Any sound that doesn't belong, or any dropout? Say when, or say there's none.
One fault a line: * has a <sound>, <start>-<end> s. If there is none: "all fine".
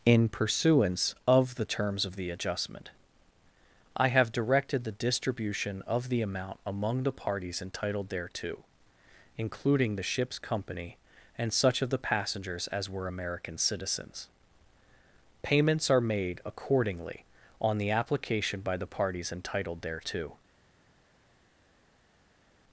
all fine